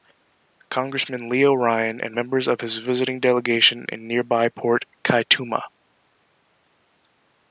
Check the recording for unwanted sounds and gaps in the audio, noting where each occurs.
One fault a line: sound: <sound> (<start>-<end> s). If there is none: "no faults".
no faults